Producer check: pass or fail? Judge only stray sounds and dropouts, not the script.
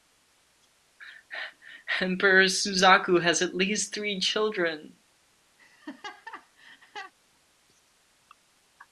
fail